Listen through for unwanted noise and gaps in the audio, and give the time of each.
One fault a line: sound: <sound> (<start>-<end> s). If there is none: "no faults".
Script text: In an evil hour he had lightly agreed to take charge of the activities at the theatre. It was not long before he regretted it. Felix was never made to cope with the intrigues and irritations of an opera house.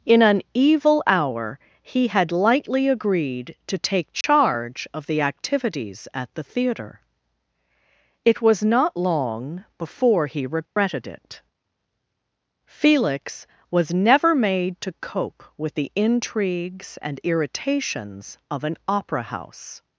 sound: dropout (4.2-4.2 s)
sound: dropout (10.7-10.8 s)